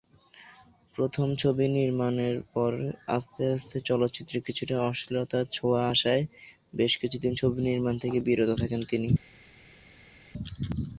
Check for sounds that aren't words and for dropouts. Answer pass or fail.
pass